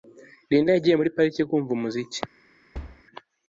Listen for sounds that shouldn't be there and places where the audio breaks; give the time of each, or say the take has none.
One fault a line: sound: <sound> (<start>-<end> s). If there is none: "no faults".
sound: thud (2.7-3.0 s)